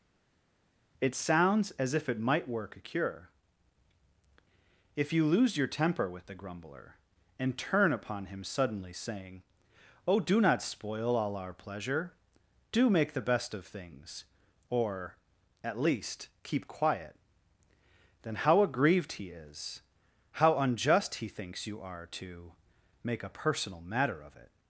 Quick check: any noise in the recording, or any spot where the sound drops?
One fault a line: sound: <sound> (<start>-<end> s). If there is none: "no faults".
no faults